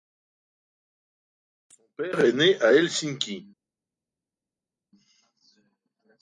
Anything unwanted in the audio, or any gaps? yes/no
no